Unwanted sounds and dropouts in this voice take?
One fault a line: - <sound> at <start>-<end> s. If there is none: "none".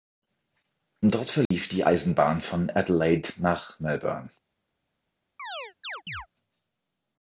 - dropout at 1.5-1.5 s
- chirp at 5.4-6.3 s